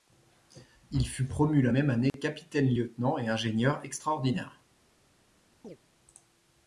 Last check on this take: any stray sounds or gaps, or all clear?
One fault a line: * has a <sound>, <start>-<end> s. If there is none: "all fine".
* has a dropout, 2.1-2.1 s
* has a chirp, 5.6-5.8 s